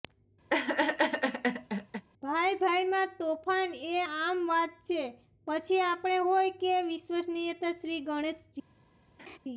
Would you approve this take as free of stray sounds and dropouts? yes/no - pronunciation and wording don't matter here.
no